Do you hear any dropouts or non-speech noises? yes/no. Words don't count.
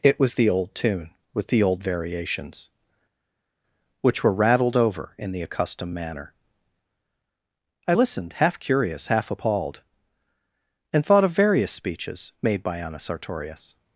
no